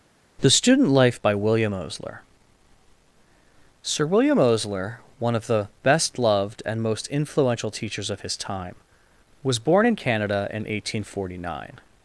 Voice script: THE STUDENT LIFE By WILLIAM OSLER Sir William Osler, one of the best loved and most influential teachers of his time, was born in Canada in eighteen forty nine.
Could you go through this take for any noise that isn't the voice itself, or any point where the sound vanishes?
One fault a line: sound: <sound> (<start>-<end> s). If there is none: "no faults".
no faults